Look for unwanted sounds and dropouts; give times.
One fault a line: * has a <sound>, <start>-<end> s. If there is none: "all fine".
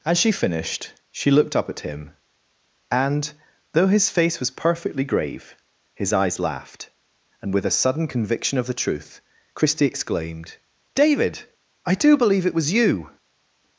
all fine